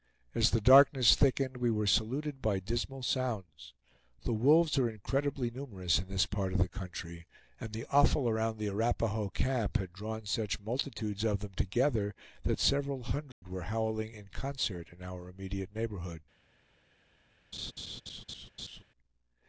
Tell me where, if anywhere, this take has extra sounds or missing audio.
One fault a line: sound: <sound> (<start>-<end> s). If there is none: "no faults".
sound: dropout (13.3-13.4 s)
sound: laugh (17.5-18.8 s)